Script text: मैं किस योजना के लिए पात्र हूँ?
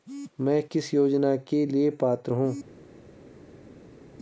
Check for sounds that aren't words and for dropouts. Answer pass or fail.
pass